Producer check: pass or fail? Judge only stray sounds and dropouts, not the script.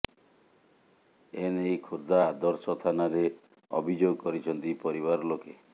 pass